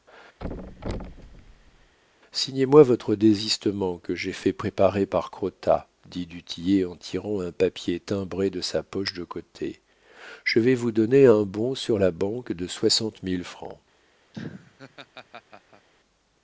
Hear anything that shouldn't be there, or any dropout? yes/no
yes